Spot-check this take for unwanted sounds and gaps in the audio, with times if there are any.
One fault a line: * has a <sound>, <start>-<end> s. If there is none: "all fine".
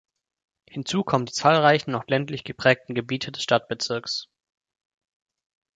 all fine